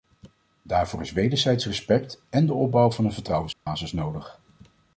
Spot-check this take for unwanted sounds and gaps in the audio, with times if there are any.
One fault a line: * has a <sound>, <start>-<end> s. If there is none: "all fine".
* has a dropout, 3.5-3.7 s